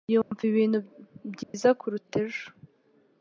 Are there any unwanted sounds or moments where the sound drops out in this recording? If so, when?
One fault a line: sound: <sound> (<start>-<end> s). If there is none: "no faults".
sound: dropout (0.2-0.3 s)
sound: dropout (1.4-1.5 s)